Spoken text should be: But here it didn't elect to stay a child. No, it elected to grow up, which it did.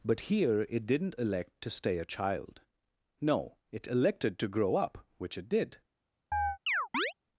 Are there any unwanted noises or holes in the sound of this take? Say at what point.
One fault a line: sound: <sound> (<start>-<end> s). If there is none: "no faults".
sound: chirp (6.3-7.1 s)